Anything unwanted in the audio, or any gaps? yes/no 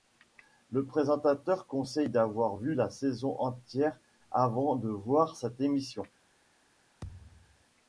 yes